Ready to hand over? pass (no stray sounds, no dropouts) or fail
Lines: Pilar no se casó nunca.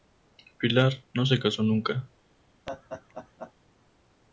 fail